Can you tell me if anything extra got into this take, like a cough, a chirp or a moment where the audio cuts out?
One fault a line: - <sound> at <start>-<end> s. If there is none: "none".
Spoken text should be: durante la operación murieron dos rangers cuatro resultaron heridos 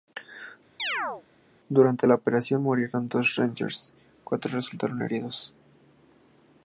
- chirp at 0.8-1.2 s